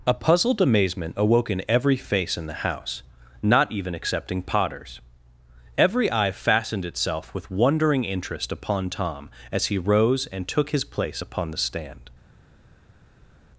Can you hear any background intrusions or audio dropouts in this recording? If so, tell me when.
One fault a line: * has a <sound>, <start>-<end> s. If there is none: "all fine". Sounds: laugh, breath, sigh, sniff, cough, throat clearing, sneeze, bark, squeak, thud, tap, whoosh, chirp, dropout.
all fine